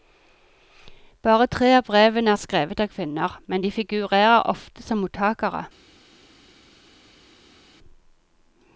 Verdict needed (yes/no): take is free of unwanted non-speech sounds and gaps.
yes